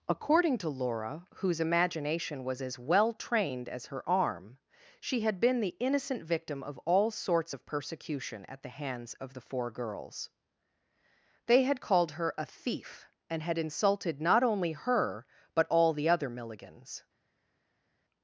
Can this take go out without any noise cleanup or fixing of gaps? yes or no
yes